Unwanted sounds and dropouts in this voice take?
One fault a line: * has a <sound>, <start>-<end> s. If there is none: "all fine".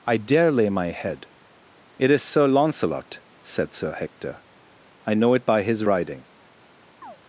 * has a chirp, 7.0-7.2 s